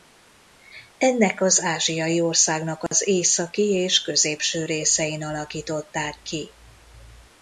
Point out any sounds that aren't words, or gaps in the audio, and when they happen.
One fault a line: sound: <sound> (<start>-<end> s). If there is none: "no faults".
sound: dropout (2.9-2.9 s)